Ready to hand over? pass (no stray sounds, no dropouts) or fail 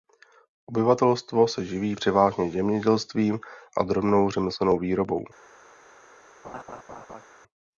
fail